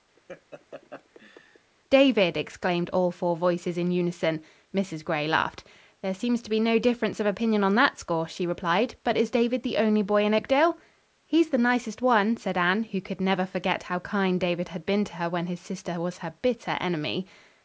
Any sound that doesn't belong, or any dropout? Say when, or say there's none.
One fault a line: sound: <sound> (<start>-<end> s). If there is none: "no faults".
sound: laugh (0.2-1.7 s)